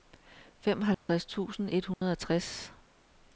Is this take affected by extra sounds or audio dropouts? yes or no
yes